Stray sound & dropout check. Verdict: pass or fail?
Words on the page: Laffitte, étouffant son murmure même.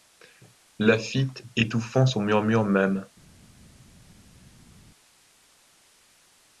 pass